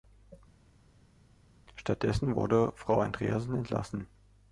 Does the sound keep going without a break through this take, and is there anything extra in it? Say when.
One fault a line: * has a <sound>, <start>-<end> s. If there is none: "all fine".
all fine